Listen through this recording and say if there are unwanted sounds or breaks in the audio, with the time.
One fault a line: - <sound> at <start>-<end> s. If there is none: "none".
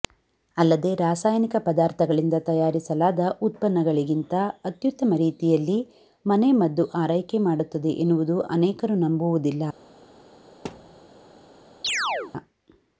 - thud at 10.6-11.0 s
- chirp at 11.8-12.3 s